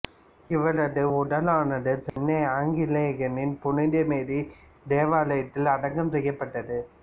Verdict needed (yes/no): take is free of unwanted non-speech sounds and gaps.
no